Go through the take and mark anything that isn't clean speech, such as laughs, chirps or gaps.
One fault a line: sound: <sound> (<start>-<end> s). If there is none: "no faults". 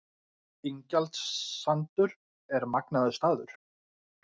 no faults